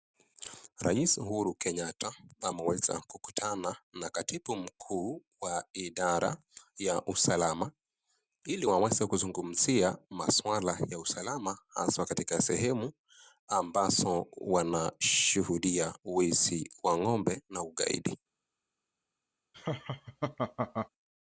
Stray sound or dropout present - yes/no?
yes